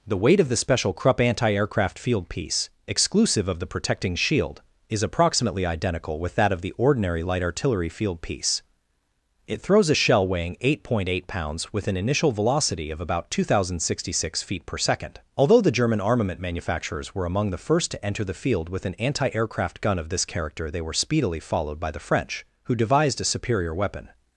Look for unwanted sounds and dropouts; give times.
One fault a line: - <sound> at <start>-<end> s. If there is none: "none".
none